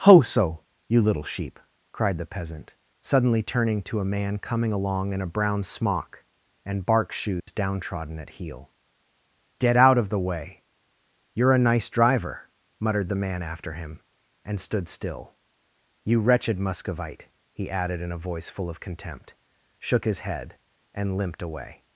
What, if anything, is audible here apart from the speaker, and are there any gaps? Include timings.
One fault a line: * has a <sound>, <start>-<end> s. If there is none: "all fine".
* has a dropout, 7.4-7.5 s